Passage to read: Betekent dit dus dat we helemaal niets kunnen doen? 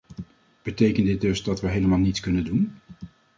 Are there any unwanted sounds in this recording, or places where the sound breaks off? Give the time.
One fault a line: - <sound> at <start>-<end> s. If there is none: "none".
none